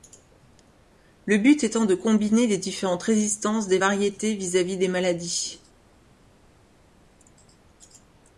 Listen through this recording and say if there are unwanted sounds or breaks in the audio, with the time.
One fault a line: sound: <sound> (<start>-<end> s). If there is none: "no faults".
no faults